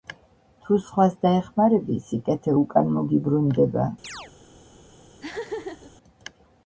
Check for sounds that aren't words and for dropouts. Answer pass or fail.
fail